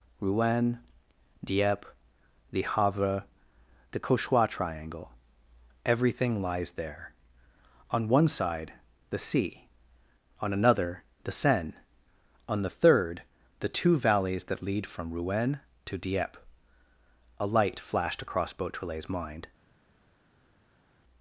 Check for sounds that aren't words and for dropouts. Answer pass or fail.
pass